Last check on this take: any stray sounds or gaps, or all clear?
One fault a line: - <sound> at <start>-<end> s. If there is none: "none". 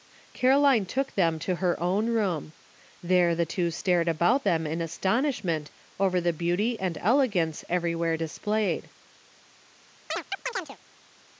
- chirp at 10.1-10.8 s